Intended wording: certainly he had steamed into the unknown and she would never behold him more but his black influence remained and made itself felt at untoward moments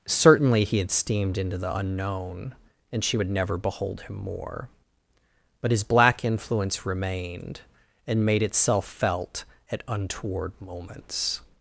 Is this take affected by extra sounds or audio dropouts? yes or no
no